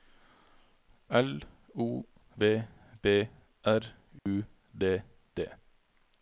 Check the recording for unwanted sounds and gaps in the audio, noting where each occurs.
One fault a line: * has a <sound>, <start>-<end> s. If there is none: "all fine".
* has a dropout, 4.2-4.3 s